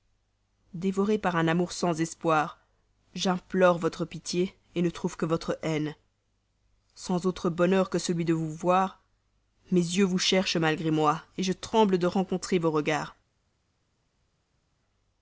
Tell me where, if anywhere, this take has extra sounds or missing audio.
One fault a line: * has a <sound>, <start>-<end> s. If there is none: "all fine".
all fine